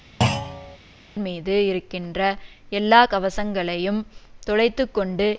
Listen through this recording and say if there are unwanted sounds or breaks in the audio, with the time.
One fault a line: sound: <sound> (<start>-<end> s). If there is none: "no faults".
sound: thud (0.2-0.8 s)